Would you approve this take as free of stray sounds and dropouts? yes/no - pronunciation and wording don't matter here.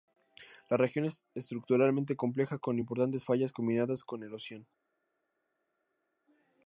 yes